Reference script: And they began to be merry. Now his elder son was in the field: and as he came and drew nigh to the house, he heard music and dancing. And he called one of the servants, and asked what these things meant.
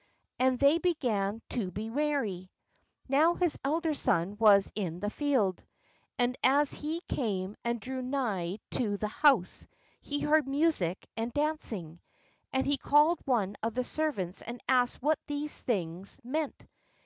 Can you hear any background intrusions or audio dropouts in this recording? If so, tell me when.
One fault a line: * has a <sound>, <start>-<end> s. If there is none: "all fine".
all fine